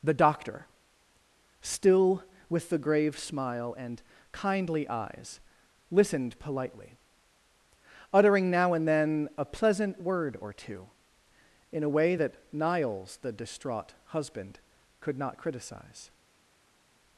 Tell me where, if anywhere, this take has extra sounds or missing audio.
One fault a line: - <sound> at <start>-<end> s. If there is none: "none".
none